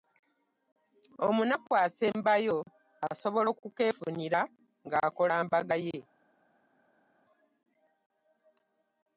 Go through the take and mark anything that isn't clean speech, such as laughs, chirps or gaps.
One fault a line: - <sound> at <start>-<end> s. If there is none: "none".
none